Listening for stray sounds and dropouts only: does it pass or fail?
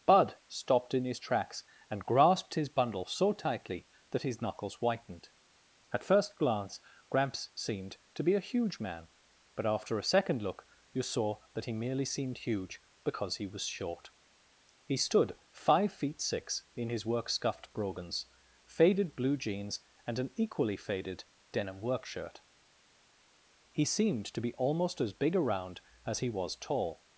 pass